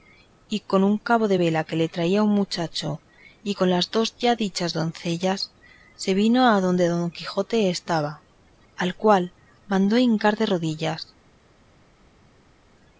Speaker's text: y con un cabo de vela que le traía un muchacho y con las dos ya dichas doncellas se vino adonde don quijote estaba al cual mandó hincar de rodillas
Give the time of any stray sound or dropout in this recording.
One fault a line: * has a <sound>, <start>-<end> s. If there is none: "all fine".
all fine